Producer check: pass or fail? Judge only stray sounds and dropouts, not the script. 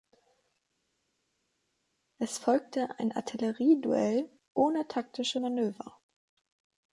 pass